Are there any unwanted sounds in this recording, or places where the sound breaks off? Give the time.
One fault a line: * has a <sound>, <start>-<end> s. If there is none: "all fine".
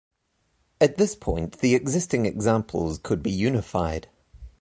all fine